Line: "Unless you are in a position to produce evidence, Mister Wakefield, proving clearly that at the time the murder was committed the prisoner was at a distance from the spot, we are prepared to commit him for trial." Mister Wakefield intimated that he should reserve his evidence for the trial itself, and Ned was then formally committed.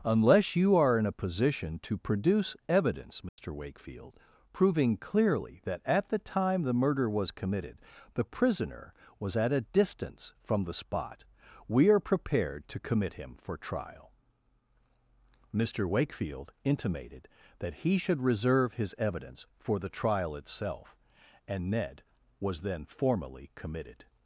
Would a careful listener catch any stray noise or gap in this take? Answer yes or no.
yes